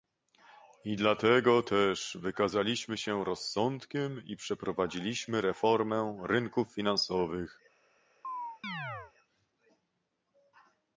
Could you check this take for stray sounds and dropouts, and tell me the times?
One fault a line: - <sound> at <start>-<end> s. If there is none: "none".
- chirp at 8.2-9.1 s